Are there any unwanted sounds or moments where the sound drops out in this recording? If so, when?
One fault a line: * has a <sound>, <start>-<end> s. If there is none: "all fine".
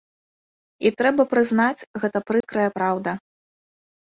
* has a dropout, 2.4-2.4 s